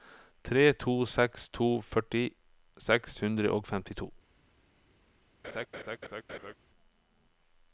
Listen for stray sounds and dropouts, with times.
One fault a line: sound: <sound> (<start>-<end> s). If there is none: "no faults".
sound: laugh (5.4-6.5 s)